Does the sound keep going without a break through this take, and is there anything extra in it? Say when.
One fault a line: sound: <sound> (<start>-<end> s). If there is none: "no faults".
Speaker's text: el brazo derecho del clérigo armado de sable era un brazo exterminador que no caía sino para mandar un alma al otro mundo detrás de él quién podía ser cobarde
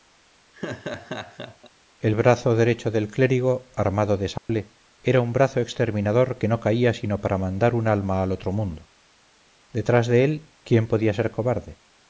sound: laugh (0.5-1.7 s)
sound: dropout (4.4-4.5 s)